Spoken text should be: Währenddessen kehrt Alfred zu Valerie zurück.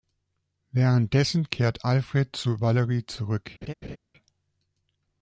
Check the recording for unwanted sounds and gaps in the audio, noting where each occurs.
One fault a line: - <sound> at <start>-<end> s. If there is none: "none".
- laugh at 3.6-4.0 s